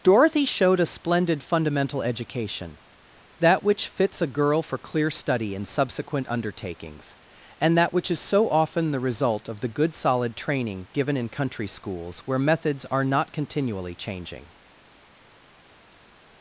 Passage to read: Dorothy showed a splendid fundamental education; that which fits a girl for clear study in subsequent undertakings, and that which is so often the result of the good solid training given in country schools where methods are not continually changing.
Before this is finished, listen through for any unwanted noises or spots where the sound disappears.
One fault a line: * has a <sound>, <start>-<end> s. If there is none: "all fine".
all fine